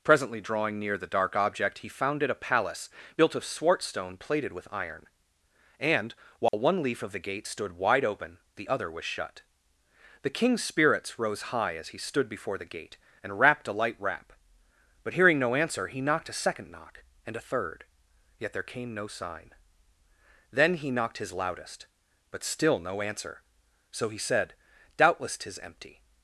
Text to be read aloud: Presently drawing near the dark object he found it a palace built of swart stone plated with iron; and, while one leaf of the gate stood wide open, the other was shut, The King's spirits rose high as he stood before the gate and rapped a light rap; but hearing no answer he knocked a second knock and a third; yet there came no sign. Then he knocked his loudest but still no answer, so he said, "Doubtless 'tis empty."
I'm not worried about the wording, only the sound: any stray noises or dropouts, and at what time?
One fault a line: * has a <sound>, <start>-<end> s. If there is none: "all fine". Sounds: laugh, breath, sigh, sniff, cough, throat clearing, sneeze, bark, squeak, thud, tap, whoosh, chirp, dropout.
* has a dropout, 6.5-6.5 s